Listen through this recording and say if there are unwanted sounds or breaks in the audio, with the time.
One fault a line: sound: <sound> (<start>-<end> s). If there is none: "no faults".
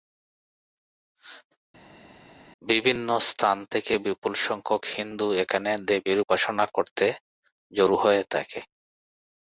no faults